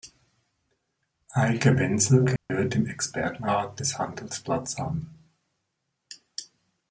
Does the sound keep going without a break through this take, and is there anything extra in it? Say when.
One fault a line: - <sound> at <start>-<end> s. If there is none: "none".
- dropout at 2.4-2.5 s